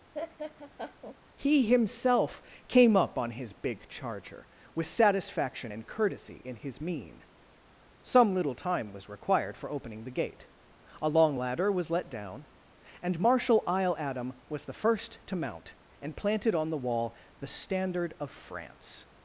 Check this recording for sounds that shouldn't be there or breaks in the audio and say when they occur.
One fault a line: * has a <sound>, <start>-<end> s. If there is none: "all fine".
* has a laugh, 0.1-1.2 s